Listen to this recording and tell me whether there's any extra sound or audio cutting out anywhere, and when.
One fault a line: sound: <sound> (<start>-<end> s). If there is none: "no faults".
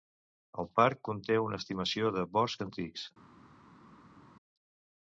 no faults